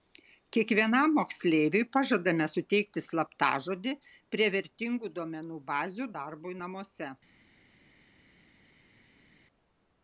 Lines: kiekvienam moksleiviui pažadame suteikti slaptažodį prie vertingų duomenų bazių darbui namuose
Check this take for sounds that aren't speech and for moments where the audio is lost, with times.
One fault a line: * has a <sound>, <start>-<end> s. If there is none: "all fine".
all fine